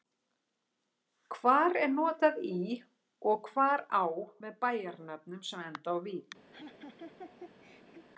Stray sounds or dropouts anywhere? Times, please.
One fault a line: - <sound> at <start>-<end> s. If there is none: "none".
- laugh at 6.5-8.1 s